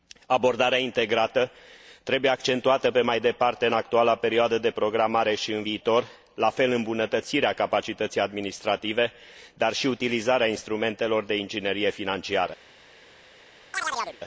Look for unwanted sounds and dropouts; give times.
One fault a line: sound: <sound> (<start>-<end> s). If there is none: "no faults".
sound: chirp (13.7-14.2 s)